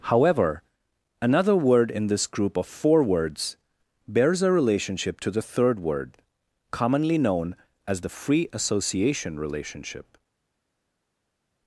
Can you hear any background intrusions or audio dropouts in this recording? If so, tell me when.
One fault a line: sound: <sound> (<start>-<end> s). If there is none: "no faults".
no faults